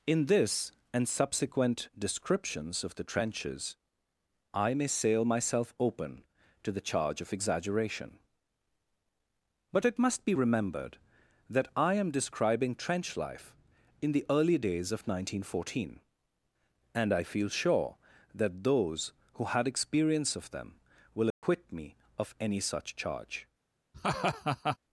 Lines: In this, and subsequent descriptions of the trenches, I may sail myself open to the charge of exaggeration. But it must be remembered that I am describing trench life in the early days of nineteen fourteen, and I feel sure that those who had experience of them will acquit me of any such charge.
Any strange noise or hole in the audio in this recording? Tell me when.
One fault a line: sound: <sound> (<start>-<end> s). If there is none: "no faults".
sound: dropout (21.3-21.4 s)
sound: laugh (23.9-24.8 s)